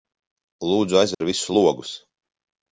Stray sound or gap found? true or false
true